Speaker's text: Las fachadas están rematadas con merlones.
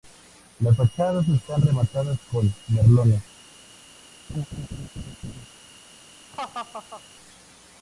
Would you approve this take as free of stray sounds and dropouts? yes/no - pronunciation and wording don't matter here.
no